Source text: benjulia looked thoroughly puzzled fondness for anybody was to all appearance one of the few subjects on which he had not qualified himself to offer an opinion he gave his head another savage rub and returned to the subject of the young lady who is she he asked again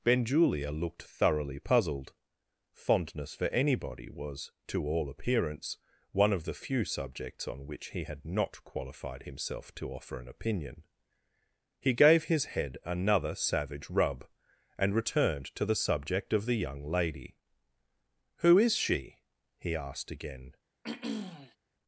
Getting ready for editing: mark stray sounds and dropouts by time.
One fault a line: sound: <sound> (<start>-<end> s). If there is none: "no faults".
sound: throat clearing (20.8-21.6 s)